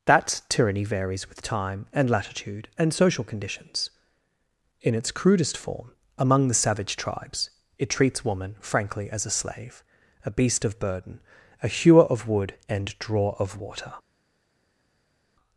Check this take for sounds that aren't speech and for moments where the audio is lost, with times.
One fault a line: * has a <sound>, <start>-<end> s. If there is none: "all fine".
all fine